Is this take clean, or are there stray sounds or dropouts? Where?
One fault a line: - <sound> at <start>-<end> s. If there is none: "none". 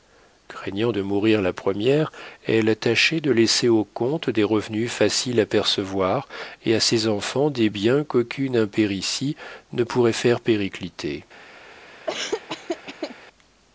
- laugh at 12.1-13.2 s